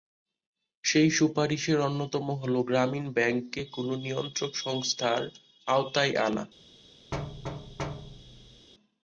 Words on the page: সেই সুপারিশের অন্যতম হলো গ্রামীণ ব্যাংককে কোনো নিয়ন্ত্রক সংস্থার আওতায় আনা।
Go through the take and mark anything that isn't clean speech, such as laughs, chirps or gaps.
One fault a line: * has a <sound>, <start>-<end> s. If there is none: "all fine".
* has a thud, 7.1-8.7 s